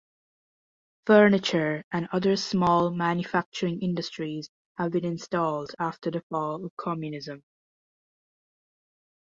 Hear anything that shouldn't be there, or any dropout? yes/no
no